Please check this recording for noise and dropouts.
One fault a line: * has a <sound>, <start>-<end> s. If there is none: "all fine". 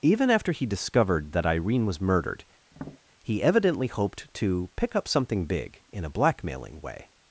* has a tap, 2.7-3.0 s